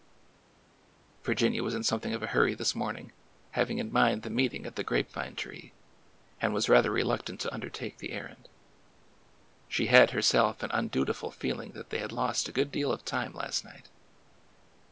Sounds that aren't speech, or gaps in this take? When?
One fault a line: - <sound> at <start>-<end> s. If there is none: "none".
none